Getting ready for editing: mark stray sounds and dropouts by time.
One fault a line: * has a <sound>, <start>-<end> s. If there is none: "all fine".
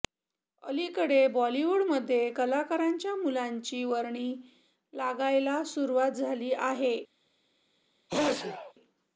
* has a sneeze, 8.1-8.7 s